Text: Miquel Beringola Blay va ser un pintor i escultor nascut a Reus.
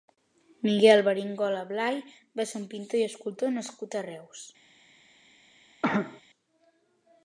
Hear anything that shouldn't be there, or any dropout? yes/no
yes